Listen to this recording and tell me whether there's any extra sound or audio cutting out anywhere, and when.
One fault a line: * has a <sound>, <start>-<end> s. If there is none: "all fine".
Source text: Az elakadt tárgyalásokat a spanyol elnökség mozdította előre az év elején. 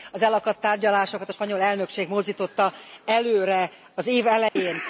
* has a dropout, 4.5-4.6 s